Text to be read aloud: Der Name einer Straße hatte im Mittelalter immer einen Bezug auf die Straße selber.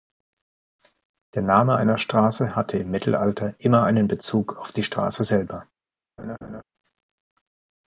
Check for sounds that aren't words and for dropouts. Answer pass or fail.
fail